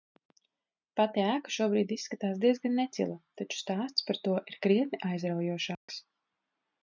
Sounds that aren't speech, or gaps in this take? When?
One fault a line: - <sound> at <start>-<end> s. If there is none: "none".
- dropout at 5.7-5.9 s